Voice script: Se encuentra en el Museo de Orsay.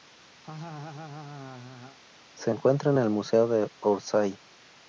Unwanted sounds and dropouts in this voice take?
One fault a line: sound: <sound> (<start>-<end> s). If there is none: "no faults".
sound: laugh (0.4-2.0 s)